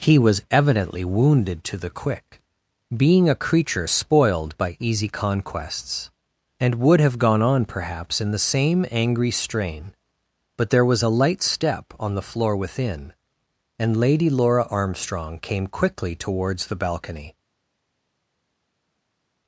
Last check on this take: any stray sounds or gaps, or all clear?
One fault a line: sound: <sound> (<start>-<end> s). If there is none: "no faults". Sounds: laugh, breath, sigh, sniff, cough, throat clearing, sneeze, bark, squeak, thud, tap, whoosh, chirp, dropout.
no faults